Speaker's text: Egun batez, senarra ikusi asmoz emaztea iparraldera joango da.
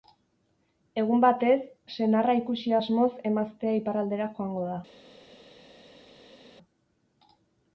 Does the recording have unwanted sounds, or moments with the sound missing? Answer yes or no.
no